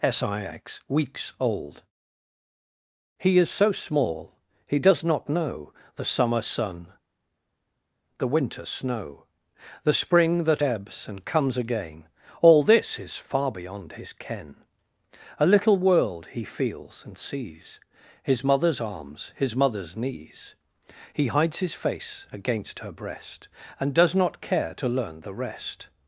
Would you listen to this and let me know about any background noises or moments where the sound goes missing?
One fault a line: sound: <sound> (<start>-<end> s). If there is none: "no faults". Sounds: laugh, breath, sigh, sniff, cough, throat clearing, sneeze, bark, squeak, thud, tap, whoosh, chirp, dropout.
no faults